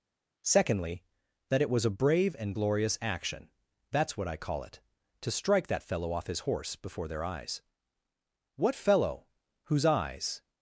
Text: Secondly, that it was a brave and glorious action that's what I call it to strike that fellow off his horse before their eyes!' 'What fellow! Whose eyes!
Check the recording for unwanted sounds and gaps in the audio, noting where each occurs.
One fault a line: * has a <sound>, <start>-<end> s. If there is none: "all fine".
all fine